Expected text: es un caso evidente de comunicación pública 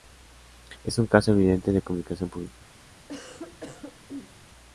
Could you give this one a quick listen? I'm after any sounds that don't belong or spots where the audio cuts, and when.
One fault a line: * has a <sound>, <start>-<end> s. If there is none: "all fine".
* has a cough, 3.1-4.3 s